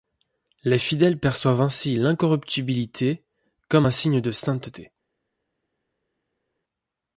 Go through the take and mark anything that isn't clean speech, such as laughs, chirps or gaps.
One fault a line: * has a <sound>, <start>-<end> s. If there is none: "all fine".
all fine